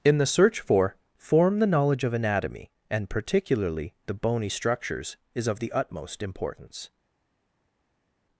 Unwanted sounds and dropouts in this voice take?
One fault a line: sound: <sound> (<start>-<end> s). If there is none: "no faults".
no faults